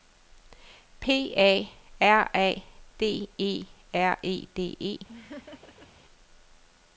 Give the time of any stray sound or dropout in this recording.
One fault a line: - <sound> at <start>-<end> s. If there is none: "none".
- laugh at 5.1-5.9 s